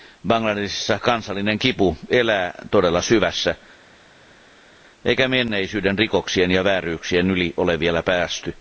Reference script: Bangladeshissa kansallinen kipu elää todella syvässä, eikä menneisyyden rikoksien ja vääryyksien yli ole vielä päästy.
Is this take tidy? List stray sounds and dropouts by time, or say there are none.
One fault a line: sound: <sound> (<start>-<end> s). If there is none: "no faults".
no faults